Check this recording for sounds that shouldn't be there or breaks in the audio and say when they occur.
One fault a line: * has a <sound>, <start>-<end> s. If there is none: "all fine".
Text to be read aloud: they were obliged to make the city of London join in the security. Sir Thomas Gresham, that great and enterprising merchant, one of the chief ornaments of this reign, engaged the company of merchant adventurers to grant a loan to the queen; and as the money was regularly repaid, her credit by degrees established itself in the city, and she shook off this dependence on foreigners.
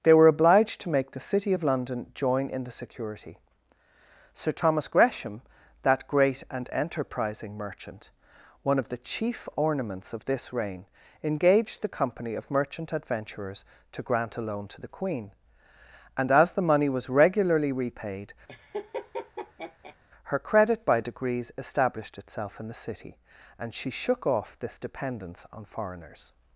* has a laugh, 18.5-20.0 s